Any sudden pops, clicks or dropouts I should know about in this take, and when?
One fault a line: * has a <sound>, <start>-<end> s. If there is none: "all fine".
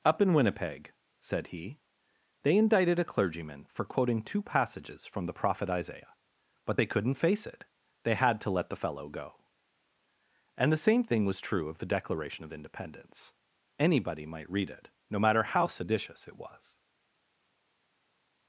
all fine